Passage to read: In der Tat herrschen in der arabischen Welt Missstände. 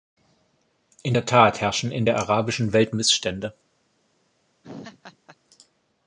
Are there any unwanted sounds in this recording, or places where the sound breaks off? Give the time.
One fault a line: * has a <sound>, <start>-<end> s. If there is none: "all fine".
* has a laugh, 4.6-5.4 s